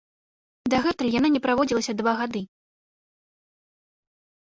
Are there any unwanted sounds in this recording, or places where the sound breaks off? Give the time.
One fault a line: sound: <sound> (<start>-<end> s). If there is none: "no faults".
no faults